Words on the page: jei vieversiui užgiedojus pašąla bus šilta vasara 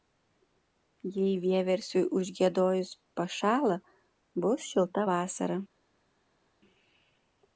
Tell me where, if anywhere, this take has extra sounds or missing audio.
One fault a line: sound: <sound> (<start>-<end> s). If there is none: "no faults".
no faults